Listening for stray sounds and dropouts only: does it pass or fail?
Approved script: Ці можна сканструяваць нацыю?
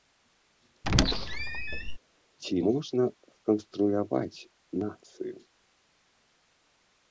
fail